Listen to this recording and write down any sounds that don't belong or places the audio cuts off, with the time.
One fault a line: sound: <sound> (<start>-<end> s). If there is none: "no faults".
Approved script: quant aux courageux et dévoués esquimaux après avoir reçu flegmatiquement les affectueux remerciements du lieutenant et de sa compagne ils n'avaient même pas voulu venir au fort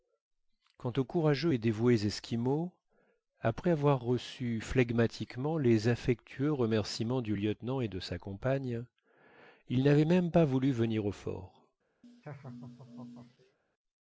sound: laugh (12.0-13.6 s)